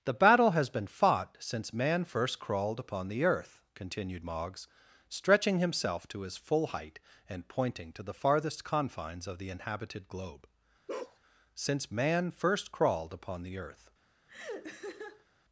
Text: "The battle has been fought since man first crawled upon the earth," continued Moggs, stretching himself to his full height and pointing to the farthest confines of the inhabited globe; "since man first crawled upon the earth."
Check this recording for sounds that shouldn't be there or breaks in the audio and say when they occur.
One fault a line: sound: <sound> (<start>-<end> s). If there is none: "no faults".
sound: bark (10.9-11.2 s)
sound: laugh (14.3-15.3 s)